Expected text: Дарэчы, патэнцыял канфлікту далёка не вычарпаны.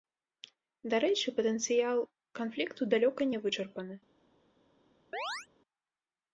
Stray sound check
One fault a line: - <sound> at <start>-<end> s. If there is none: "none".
- chirp at 5.1-5.5 s